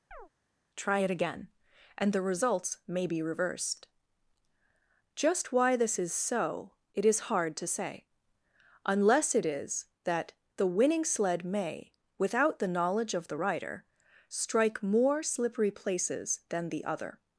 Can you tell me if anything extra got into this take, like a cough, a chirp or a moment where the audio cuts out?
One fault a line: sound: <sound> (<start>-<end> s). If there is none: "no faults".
sound: chirp (0.1-0.3 s)